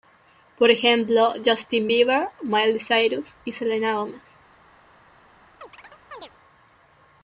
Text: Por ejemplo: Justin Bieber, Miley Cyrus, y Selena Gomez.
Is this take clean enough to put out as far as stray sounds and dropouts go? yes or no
no